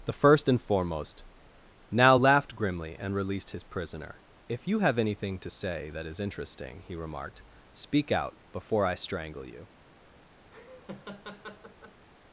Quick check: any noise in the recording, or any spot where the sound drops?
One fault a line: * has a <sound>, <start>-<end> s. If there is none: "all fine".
* has a laugh, 10.5-12.0 s